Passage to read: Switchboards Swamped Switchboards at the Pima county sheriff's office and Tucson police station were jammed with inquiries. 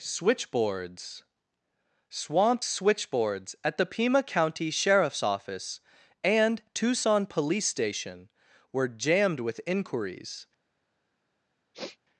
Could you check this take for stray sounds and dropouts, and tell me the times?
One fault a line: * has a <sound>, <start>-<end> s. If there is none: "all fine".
* has a sniff, 11.7-12.0 s